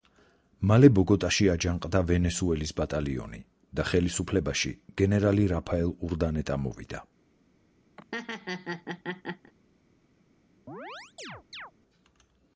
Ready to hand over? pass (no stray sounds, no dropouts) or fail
fail